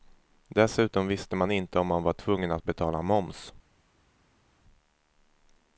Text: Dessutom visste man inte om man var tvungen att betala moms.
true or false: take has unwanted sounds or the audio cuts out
false